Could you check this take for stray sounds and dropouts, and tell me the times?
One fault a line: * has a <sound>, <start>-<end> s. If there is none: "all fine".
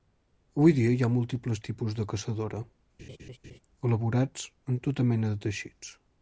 * has a laugh, 3.0-3.6 s